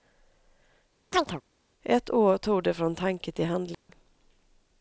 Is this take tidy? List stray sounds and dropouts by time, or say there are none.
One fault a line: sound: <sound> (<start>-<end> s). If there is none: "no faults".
sound: chirp (1.1-1.4 s)
sound: dropout (3.7-3.9 s)